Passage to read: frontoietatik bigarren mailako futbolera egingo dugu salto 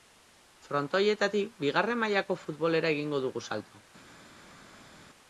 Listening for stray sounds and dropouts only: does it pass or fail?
pass